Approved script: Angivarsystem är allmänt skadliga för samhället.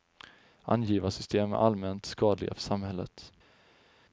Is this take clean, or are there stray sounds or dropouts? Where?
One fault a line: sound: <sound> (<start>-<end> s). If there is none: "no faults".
no faults